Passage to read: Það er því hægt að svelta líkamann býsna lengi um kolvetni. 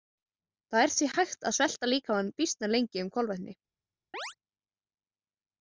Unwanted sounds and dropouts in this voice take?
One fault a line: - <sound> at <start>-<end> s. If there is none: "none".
- chirp at 4.1-4.3 s